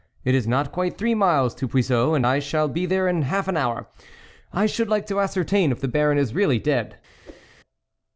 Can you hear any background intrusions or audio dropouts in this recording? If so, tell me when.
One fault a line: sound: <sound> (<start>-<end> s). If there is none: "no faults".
sound: whoosh (7.2-7.5 s)